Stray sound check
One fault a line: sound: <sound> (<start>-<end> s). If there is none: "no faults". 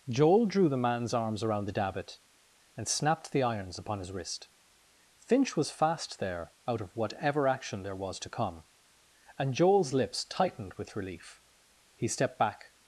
no faults